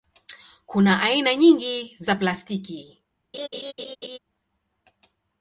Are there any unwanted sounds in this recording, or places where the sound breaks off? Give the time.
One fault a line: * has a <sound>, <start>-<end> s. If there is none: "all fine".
* has a laugh, 3.3-4.2 s